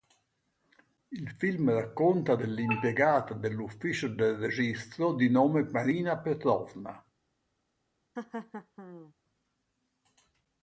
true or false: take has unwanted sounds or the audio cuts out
true